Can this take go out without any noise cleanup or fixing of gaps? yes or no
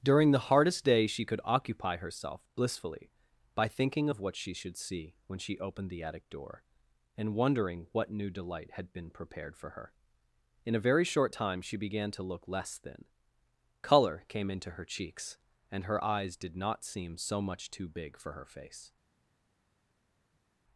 yes